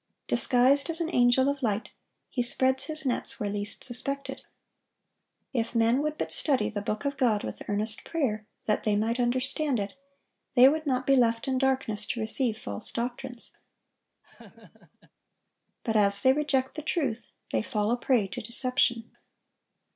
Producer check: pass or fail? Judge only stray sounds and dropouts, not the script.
fail